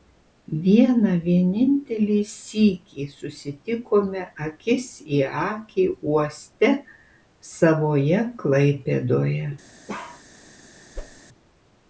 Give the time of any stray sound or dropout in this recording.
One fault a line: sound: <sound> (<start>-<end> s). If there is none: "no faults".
sound: bark (9.9-10.2 s)
sound: whoosh (10.9-11.2 s)